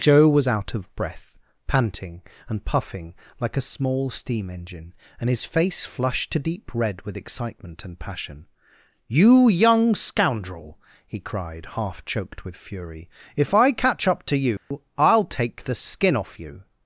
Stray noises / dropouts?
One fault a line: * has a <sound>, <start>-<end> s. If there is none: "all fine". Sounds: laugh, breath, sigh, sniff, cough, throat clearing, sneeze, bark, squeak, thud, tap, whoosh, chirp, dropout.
* has a dropout, 14.6-14.7 s